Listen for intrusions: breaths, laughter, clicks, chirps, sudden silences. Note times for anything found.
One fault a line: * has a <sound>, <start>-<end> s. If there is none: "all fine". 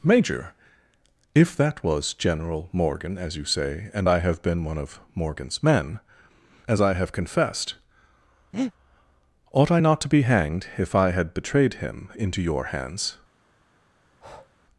* has a breath, 8.5-8.7 s
* has a breath, 14.0-14.5 s